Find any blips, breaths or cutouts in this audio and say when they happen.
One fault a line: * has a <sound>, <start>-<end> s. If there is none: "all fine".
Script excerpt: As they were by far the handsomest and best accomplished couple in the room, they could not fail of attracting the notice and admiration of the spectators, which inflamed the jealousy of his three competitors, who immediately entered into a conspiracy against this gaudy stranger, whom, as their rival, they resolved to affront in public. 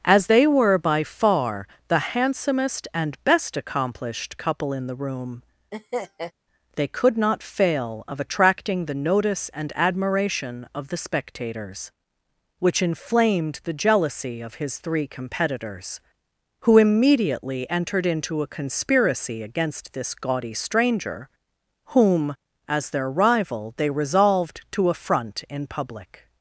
* has a laugh, 5.7-6.3 s